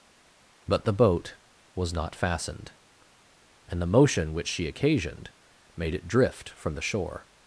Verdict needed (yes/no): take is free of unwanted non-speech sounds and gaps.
yes